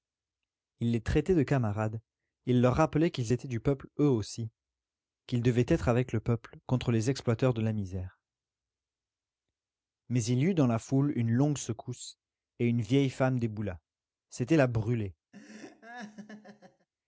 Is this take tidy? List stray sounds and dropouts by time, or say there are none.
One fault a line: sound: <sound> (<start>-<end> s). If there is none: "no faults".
sound: laugh (15.3-16.9 s)